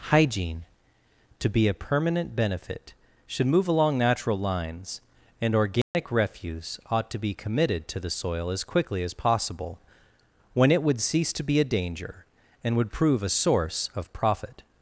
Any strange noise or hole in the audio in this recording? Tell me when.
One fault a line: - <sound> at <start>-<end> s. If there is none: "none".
- dropout at 5.8-5.9 s